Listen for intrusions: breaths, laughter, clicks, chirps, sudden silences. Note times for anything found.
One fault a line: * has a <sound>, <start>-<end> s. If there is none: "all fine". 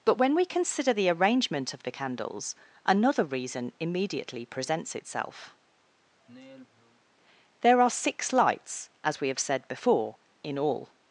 * has a sigh, 6.2-7.0 s